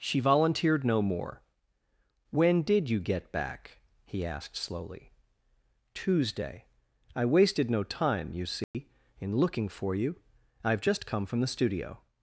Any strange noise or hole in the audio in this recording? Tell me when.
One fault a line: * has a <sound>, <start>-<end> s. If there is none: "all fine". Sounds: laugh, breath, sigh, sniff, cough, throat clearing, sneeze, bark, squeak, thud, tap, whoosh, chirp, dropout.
* has a dropout, 8.6-8.7 s